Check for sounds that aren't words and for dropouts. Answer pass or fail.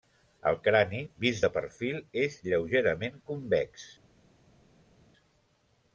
pass